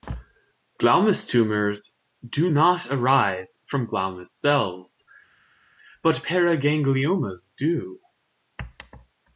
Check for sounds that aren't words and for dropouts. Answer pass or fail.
pass